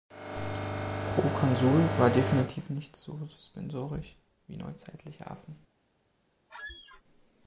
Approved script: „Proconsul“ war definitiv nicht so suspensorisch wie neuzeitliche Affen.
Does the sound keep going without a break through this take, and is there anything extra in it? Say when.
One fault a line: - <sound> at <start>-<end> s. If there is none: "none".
- squeak at 6.5-7.0 s